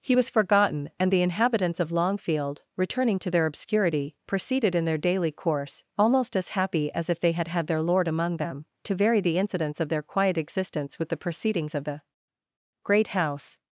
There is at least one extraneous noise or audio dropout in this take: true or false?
false